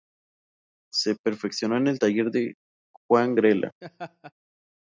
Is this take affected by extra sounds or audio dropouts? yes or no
yes